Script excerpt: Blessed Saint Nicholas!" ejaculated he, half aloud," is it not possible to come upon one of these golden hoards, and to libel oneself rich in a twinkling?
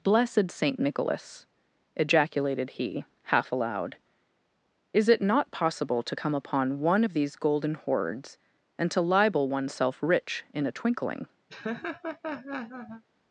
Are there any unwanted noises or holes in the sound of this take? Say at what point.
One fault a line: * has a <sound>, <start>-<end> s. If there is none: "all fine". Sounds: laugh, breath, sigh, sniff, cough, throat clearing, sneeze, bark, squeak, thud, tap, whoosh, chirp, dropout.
* has a laugh, 11.5-13.0 s